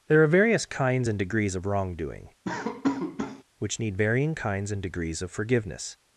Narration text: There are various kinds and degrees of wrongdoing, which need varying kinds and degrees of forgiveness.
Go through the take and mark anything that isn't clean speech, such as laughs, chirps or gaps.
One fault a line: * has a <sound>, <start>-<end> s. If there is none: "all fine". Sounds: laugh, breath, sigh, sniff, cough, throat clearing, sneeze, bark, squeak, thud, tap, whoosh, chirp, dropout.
* has a laugh, 2.4-3.4 s